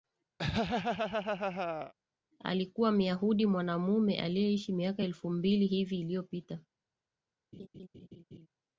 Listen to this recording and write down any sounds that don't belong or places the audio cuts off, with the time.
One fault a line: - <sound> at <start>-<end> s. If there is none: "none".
- laugh at 0.4-1.9 s
- laugh at 7.5-8.5 s